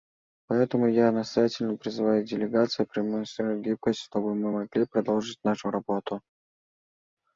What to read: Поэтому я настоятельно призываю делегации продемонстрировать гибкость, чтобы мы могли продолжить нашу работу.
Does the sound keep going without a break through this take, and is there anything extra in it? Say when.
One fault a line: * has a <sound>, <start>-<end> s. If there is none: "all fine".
all fine